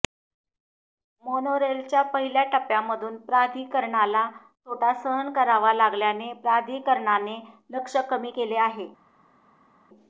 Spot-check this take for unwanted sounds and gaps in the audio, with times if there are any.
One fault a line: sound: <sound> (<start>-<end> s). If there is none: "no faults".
no faults